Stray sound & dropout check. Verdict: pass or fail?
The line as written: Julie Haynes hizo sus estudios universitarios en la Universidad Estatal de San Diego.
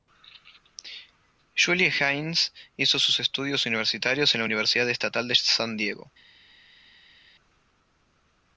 pass